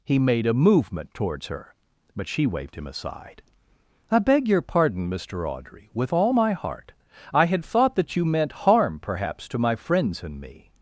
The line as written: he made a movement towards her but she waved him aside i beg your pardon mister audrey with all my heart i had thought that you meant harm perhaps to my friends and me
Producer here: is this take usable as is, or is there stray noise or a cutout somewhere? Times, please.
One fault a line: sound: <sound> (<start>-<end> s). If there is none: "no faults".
no faults